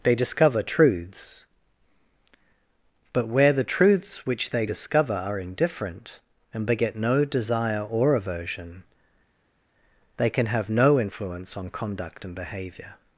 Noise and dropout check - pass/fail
pass